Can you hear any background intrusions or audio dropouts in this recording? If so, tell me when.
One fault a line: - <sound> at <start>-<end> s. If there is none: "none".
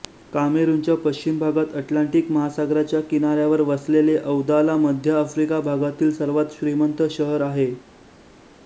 none